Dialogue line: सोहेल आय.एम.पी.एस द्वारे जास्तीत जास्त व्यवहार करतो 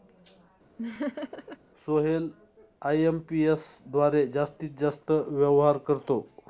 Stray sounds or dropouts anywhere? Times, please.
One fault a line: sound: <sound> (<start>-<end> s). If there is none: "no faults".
sound: laugh (0.8-1.6 s)